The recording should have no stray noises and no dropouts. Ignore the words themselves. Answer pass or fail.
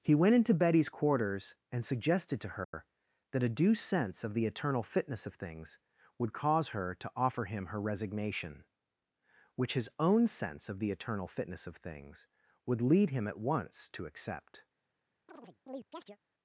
fail